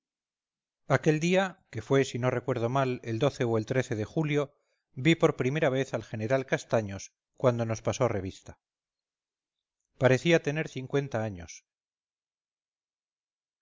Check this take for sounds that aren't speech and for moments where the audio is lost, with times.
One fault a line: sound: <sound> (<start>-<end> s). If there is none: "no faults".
no faults